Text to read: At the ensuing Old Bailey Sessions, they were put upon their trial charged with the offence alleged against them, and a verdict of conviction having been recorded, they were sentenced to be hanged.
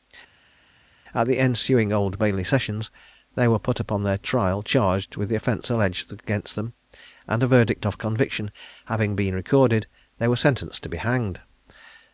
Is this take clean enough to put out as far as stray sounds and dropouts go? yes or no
yes